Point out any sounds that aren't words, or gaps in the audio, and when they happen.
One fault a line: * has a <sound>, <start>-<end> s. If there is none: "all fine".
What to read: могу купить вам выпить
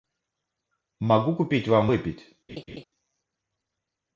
* has a laugh, 2.5-2.8 s